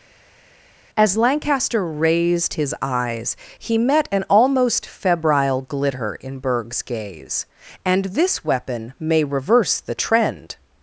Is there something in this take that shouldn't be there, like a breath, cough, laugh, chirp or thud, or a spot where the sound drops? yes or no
no